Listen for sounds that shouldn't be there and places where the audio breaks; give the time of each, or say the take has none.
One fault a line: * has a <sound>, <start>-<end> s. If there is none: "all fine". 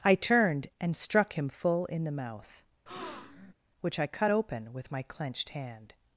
* has a breath, 2.9-3.5 s